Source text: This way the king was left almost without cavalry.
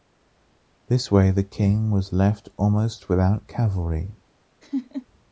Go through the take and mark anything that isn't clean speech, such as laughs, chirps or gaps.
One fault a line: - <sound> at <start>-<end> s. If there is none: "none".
- laugh at 4.6-5.1 s